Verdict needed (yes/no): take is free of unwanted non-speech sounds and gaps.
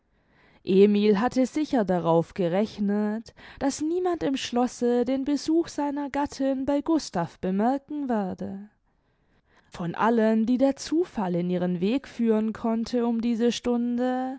yes